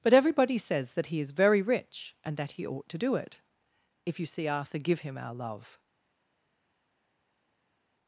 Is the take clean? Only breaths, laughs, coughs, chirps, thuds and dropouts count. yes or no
yes